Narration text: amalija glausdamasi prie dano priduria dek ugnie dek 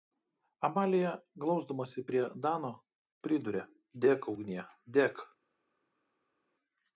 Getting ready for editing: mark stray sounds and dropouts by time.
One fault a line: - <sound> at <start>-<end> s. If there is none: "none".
none